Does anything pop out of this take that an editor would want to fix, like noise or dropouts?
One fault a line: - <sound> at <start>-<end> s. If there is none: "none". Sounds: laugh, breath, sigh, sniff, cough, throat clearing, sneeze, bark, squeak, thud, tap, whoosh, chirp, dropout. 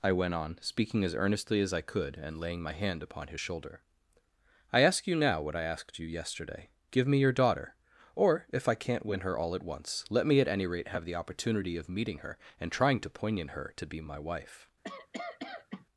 - cough at 14.8-15.9 s